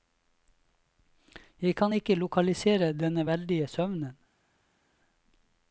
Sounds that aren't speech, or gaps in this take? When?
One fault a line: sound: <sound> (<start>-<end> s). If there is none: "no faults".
no faults